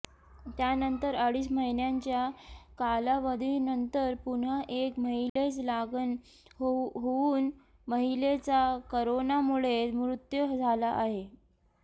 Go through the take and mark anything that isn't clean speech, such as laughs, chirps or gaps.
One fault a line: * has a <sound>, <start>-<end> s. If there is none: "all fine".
* has a dropout, 5.3-5.4 s